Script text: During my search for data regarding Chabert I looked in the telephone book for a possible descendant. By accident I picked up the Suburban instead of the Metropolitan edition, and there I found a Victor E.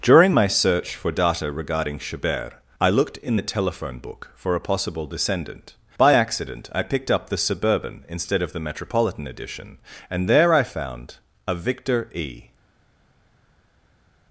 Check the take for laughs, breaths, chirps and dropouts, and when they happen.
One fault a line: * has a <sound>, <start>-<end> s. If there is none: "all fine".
all fine